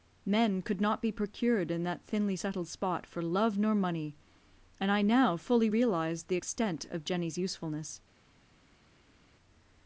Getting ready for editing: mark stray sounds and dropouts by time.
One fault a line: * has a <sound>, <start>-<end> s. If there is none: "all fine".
all fine